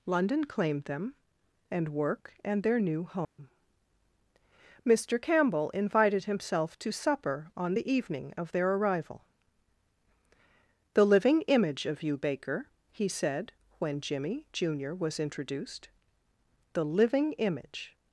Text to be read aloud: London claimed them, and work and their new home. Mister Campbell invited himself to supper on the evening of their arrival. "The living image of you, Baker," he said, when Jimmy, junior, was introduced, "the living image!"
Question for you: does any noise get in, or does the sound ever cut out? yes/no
yes